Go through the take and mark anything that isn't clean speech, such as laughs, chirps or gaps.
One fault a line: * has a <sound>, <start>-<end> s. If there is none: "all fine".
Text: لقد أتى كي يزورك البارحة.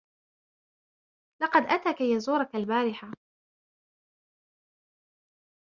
all fine